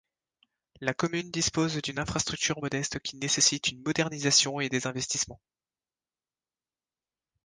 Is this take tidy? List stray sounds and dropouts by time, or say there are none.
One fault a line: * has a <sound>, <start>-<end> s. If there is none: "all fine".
all fine